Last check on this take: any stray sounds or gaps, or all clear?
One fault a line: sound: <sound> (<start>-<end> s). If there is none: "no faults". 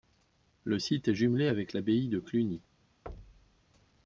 sound: thud (3.1-3.6 s)